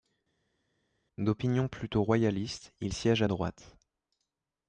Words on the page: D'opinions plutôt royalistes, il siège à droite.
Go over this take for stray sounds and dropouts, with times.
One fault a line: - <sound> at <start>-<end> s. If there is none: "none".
none